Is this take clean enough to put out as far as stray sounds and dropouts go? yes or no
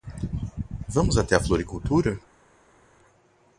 yes